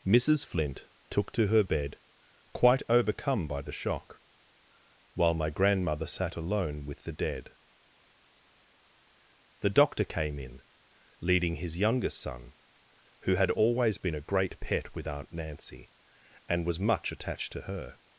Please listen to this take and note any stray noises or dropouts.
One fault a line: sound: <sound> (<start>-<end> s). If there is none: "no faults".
no faults